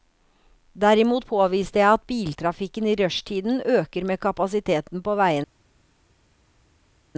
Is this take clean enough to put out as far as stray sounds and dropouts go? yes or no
yes